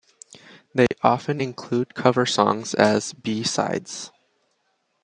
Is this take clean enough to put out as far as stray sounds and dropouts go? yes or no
no